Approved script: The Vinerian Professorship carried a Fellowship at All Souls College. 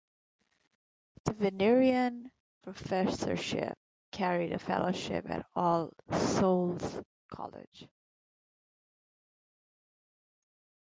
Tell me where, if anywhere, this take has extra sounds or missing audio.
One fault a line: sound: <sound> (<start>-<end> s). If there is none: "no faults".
no faults